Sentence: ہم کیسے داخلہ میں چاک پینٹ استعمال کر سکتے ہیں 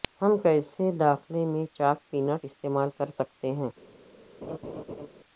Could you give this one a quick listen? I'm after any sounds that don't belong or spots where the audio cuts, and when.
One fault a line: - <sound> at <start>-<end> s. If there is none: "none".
- laugh at 4.4-5.1 s